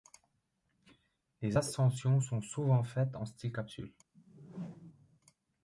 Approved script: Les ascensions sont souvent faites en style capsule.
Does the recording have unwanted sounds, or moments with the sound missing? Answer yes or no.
yes